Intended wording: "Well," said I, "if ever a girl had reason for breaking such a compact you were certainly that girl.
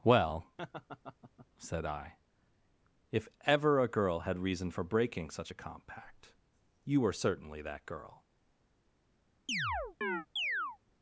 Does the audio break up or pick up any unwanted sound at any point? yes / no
yes